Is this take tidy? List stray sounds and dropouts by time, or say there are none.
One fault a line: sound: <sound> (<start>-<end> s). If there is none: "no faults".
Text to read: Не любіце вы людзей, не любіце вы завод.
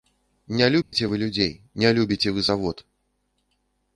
sound: dropout (0.8-0.9 s)